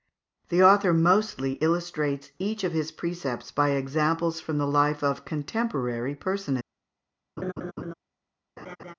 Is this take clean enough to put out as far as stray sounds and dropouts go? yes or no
no